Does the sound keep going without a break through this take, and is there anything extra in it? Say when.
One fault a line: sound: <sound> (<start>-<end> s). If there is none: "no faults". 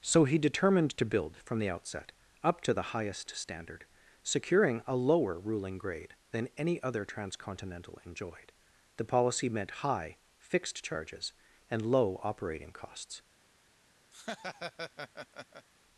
sound: laugh (14.1-15.7 s)